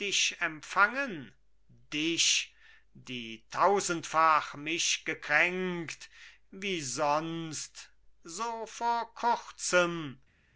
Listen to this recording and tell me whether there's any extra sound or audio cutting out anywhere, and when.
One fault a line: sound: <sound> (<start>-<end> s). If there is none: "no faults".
no faults